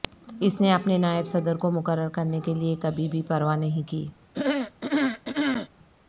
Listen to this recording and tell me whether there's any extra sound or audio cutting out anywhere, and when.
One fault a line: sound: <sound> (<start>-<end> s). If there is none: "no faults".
sound: throat clearing (4.3-5.7 s)